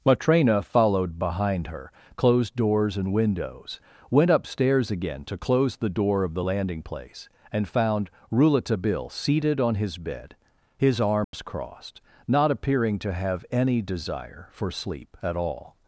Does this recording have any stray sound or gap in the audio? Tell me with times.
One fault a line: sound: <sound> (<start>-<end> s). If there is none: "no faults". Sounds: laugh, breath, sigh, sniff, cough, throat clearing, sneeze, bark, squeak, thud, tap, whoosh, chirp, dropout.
sound: dropout (11.2-11.3 s)